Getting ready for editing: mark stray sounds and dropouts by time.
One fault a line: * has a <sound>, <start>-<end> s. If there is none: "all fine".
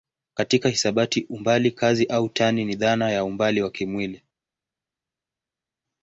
all fine